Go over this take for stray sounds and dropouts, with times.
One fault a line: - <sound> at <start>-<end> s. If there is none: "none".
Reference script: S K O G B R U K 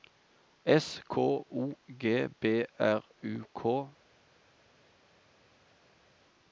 none